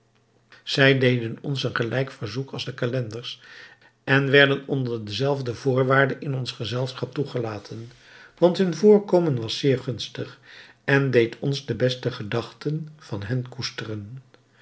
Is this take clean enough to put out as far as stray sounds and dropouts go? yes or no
yes